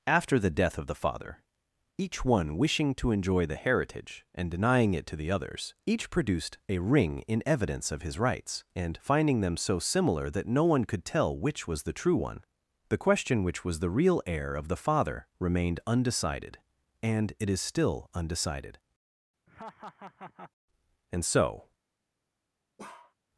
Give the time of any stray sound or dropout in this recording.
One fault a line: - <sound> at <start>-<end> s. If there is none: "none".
- laugh at 19.5-20.5 s
- bark at 22.8-23.1 s